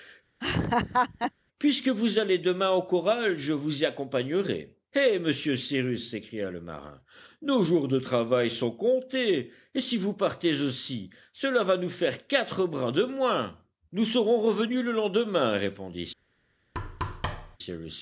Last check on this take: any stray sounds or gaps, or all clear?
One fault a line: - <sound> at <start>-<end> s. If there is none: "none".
- laugh at 0.4-1.3 s
- thud at 16.7-17.6 s